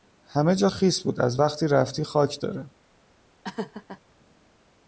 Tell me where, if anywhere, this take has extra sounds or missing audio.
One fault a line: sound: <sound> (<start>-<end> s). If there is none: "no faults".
sound: laugh (3.4-4.0 s)